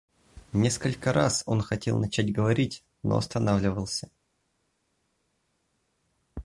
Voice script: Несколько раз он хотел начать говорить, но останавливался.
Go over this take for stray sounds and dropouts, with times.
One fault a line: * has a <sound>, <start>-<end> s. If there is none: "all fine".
all fine